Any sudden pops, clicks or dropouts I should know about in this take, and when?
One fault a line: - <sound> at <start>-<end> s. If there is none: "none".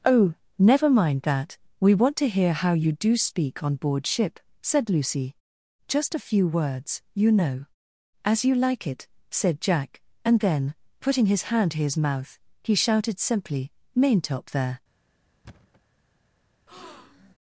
- thud at 15.4-15.8 s
- breath at 16.7-17.3 s